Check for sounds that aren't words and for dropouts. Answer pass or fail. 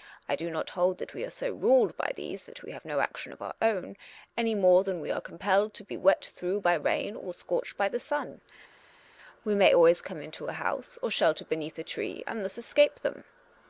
pass